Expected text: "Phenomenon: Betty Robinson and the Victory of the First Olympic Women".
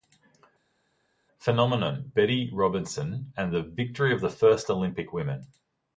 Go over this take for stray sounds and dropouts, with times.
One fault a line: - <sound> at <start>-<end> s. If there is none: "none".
none